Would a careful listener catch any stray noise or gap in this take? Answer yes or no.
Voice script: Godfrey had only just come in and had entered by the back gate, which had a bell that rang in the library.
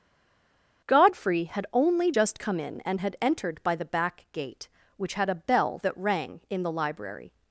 no